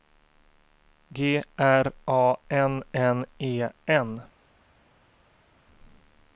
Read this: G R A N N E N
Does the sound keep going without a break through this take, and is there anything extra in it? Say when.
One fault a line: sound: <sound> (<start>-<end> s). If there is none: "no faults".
no faults